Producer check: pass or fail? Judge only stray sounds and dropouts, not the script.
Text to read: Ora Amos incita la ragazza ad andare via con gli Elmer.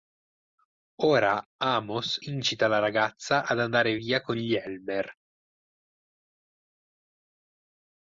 pass